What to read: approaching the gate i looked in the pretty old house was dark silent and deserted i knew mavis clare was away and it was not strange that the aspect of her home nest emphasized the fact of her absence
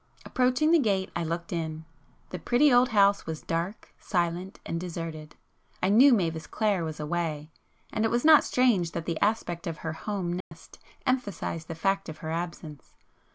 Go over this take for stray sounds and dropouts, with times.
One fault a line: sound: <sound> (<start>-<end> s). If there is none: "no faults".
sound: dropout (10.4-10.5 s)